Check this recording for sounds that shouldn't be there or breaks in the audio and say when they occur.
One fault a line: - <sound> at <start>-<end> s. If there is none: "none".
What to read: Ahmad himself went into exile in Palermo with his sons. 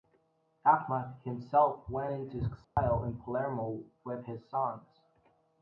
- dropout at 2.6-2.8 s